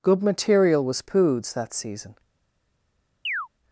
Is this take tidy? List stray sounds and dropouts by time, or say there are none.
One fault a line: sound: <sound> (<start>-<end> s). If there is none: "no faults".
sound: chirp (3.3-3.5 s)